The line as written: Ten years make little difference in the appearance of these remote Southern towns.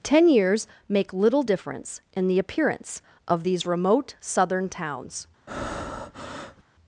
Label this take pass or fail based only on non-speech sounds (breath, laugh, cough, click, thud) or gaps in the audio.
fail